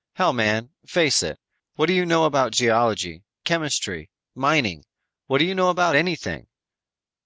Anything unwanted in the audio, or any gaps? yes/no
no